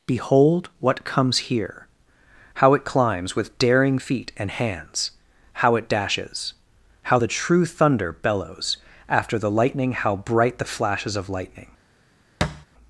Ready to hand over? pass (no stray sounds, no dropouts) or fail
fail